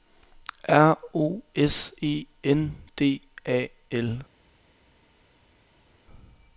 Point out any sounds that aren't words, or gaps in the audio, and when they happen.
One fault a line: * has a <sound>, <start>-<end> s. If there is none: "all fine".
all fine